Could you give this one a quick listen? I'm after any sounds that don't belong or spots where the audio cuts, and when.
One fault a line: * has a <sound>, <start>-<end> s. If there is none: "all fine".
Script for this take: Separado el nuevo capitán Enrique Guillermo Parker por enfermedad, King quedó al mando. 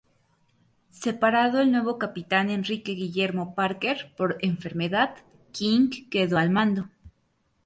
all fine